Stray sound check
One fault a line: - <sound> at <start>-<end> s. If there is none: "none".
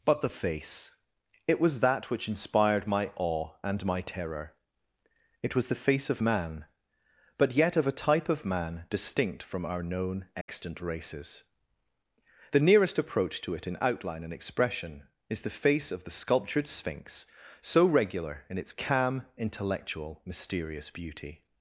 - dropout at 10.4-10.5 s